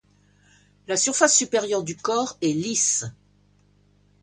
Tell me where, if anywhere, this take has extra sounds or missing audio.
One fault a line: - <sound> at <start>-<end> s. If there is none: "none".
none